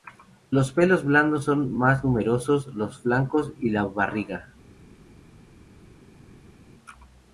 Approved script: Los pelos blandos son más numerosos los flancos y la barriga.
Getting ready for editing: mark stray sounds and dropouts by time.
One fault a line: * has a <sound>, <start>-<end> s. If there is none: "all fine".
all fine